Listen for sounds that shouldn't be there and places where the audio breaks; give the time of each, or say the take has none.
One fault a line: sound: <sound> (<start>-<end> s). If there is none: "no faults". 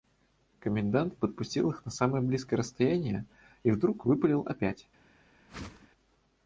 sound: whoosh (5.5-5.9 s)